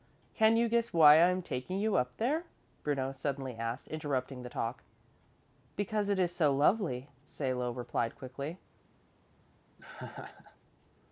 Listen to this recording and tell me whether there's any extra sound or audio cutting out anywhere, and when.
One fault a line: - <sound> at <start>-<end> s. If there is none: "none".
- laugh at 9.8-10.6 s